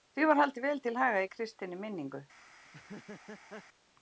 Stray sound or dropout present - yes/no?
yes